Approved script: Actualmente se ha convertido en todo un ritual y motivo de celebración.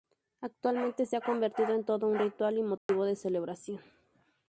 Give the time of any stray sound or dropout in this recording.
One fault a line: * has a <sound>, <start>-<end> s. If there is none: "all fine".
* has a dropout, 2.8-2.9 s